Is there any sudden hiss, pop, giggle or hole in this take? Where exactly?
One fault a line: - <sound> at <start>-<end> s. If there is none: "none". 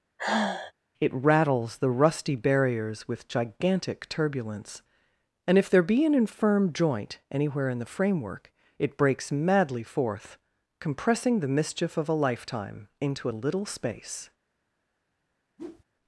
- sigh at 0.2-0.7 s
- whoosh at 15.6-15.8 s